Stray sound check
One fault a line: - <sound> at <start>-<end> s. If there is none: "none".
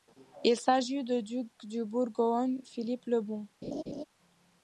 - laugh at 3.6-4.0 s